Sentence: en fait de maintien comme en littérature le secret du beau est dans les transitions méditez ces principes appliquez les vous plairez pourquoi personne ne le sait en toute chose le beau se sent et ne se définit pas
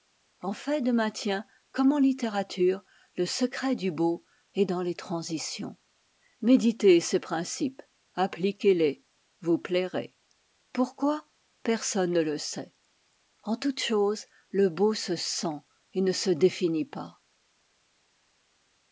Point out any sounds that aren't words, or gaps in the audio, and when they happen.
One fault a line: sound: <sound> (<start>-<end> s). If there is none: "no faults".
no faults